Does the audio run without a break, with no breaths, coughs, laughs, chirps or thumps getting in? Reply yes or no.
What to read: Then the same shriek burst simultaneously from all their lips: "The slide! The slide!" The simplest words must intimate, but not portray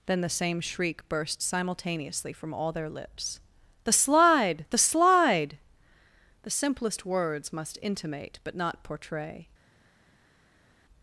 yes